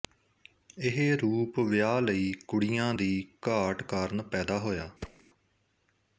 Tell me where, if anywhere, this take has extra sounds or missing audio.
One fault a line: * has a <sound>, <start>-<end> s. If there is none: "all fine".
* has a thud, 5.0-5.2 s